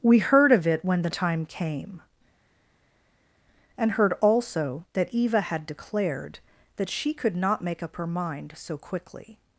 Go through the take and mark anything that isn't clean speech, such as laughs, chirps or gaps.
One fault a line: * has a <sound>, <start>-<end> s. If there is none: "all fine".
all fine